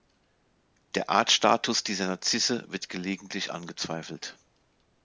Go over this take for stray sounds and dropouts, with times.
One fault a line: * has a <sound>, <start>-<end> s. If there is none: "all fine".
all fine